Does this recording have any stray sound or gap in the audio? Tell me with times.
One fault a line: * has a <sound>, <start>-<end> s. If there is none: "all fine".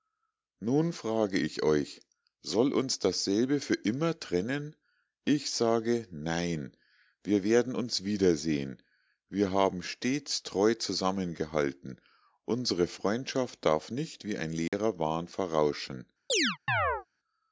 * has a dropout, 14.7-14.7 s
* has a chirp, 16.3-17.1 s